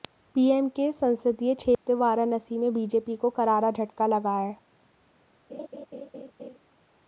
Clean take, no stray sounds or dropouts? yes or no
no